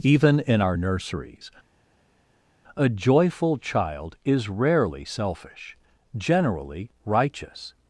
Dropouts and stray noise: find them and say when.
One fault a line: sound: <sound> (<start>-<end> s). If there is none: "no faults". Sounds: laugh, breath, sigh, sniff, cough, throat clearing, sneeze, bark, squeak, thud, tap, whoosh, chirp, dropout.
no faults